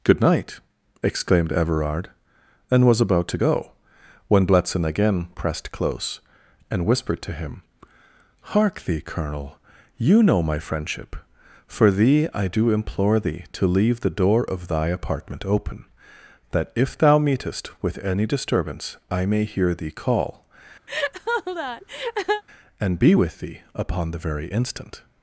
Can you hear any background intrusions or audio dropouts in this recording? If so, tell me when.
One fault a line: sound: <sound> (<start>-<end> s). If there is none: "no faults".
sound: laugh (20.9-22.4 s)